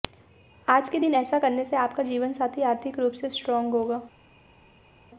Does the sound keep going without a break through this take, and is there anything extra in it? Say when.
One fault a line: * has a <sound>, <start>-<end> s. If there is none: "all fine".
all fine